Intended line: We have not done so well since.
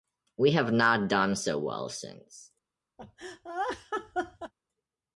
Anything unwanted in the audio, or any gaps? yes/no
yes